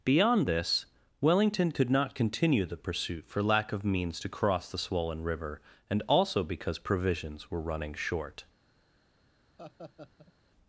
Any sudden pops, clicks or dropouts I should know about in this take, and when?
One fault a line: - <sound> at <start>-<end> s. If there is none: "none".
- laugh at 9.6-10.3 s